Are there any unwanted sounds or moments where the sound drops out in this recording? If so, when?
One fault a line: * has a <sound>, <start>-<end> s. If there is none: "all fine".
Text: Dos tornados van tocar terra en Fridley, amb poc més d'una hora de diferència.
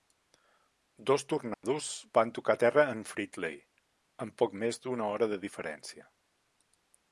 * has a dropout, 1.5-1.6 s